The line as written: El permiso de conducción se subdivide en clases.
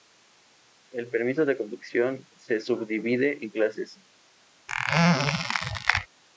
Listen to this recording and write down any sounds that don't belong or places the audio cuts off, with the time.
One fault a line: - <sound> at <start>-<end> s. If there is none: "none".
- squeak at 4.7-6.1 s